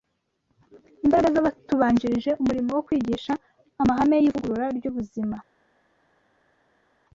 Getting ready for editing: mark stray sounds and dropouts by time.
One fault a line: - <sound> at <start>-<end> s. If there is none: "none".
none